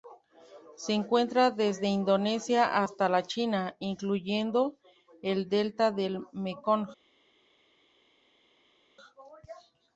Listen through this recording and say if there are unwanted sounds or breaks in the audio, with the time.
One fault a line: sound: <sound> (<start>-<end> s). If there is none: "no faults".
no faults